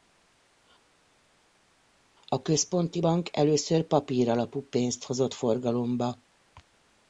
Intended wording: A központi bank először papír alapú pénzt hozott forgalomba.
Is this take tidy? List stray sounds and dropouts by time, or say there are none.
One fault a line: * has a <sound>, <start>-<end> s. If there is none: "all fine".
all fine